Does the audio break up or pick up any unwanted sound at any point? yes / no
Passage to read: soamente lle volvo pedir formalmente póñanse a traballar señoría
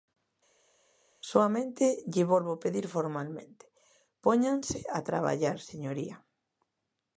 no